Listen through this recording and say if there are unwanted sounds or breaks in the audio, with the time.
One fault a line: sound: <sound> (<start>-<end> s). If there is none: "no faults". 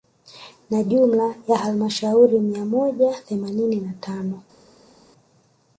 no faults